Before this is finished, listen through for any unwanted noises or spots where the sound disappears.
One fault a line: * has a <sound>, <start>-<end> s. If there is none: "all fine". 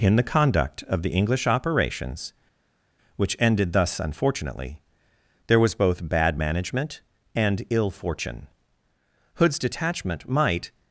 all fine